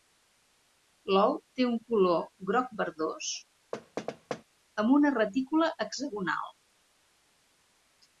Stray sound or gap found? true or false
true